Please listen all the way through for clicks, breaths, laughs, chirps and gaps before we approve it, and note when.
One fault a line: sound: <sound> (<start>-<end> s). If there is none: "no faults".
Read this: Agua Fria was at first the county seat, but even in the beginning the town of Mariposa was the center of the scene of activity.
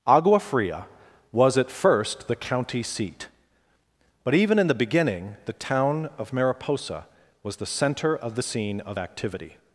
no faults